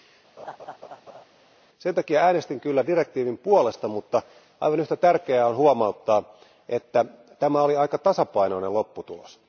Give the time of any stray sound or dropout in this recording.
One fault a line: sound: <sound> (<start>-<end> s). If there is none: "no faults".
sound: laugh (0.4-1.2 s)